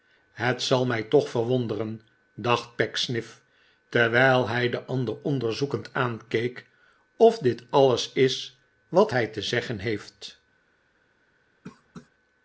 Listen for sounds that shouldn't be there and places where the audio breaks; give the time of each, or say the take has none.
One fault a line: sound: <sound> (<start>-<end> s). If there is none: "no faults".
sound: cough (11.6-12.1 s)